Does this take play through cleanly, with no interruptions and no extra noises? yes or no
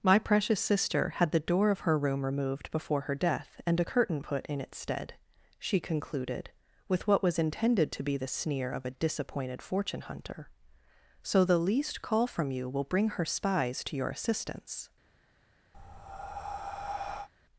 no